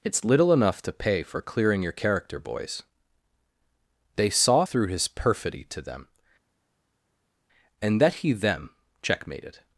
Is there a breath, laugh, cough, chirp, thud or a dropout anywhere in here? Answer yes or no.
no